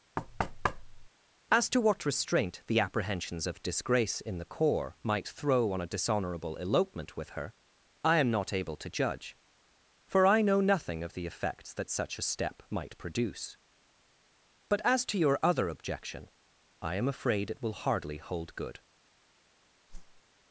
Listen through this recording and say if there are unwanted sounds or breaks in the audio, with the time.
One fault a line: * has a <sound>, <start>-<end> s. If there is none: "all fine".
* has a thud, 0.2-1.1 s
* has a whoosh, 19.9-20.2 s